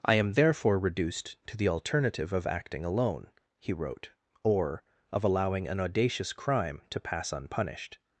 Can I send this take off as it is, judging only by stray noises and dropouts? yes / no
yes